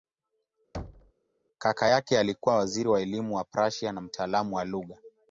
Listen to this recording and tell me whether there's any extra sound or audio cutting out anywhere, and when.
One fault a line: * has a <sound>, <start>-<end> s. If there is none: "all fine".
* has a thud, 0.7-1.1 s